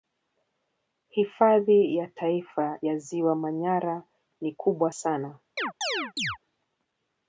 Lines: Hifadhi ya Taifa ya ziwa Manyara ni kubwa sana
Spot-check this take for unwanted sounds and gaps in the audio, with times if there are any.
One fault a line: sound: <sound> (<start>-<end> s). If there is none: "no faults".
sound: chirp (5.6-6.4 s)